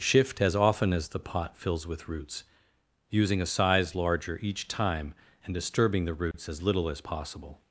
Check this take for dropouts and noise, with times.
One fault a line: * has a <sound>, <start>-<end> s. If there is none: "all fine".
* has a dropout, 6.3-6.3 s